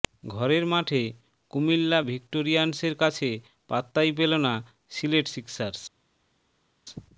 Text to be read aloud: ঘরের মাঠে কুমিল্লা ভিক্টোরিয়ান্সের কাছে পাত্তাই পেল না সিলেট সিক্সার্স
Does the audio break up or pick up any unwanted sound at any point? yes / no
no